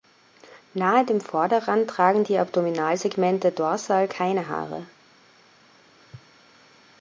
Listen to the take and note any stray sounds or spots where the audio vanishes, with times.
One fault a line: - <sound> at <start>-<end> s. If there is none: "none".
none